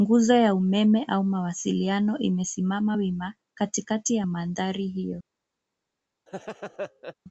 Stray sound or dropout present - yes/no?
yes